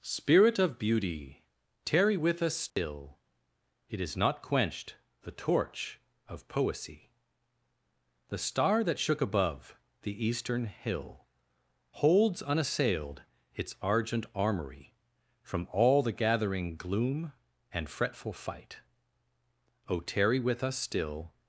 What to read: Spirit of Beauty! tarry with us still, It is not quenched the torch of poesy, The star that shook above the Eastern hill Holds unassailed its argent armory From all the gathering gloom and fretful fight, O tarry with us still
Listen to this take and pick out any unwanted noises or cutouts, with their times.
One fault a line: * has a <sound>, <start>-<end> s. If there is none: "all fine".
* has a dropout, 2.7-2.8 s